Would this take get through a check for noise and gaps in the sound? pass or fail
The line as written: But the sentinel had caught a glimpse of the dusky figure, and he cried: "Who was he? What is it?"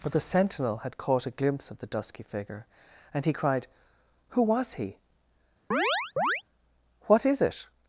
fail